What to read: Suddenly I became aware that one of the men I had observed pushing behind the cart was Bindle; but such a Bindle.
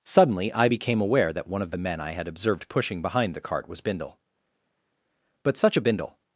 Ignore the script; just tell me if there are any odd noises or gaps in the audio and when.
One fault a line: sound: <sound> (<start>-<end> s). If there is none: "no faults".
no faults